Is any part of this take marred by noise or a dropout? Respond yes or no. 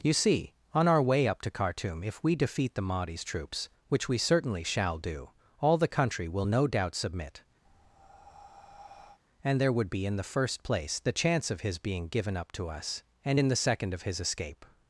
yes